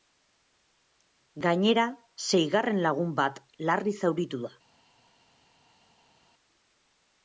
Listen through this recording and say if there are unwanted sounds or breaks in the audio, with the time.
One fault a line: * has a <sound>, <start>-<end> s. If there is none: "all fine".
all fine